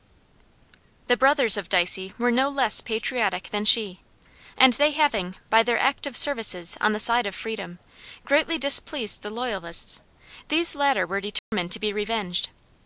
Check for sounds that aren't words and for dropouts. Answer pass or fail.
fail